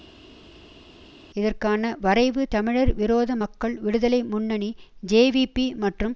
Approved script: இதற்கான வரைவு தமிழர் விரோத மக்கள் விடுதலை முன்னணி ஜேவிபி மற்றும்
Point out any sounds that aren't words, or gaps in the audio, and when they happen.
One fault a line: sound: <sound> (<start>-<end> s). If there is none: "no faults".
no faults